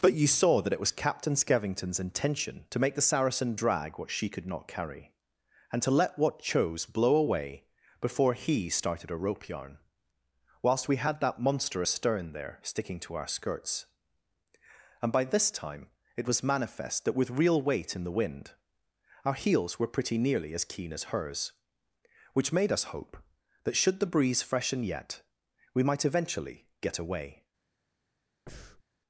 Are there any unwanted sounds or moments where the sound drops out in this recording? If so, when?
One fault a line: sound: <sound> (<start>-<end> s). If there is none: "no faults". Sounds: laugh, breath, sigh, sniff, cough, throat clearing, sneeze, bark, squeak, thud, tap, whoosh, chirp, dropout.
sound: breath (28.5-28.8 s)